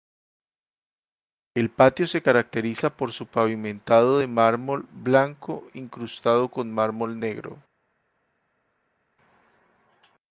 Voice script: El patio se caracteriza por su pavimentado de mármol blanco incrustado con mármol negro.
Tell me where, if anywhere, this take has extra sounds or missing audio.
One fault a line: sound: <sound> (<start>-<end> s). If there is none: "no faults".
no faults